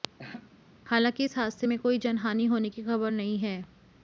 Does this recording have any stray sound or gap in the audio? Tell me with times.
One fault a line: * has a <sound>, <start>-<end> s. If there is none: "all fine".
* has a laugh, 0.2-0.5 s